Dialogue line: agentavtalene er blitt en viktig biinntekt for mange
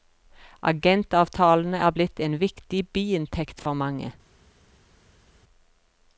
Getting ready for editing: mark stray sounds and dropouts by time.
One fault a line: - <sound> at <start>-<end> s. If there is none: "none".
none